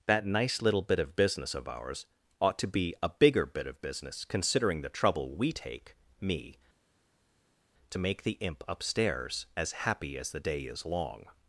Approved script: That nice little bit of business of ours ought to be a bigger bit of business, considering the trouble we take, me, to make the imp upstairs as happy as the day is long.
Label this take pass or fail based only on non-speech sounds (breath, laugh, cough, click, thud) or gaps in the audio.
pass